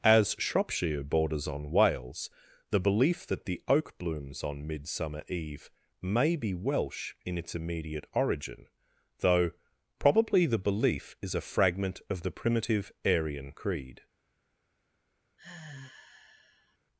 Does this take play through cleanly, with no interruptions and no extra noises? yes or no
no